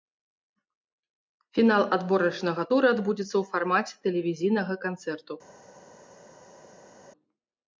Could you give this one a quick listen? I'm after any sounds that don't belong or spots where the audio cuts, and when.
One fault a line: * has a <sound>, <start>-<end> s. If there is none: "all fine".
all fine